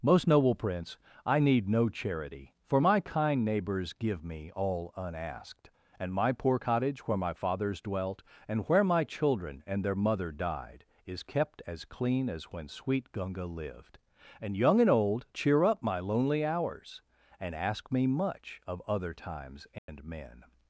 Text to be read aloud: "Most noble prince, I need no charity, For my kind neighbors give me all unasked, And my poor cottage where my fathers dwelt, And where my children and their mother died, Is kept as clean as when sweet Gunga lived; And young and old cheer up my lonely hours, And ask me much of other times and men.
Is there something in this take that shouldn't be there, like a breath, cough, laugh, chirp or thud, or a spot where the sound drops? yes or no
yes